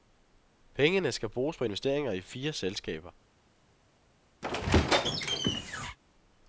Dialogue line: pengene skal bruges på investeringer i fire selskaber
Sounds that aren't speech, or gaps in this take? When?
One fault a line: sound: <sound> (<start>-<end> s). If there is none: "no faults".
sound: squeak (4.4-6.0 s)